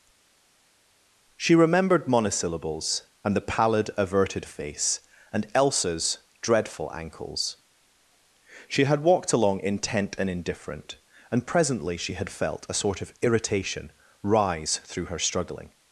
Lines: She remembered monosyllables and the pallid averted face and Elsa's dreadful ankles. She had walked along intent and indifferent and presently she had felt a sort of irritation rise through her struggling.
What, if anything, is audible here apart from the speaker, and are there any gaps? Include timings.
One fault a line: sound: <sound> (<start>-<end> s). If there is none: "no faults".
no faults